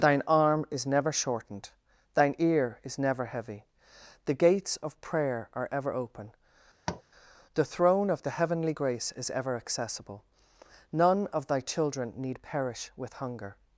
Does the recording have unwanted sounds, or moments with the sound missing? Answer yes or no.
yes